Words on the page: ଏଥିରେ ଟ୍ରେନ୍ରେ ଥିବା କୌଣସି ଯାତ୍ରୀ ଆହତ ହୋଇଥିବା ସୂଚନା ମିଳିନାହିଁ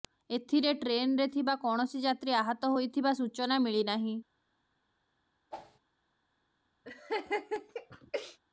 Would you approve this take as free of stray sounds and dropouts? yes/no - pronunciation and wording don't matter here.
no